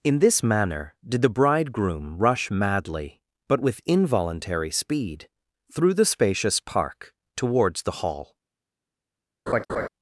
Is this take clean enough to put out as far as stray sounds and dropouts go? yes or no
no